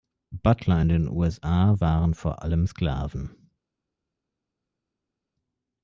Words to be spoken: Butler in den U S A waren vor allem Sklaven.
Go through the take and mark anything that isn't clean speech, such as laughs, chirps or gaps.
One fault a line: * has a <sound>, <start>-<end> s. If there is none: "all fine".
all fine